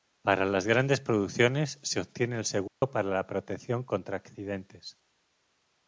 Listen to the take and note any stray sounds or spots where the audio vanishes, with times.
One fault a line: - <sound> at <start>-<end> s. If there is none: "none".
- dropout at 2.7-2.8 s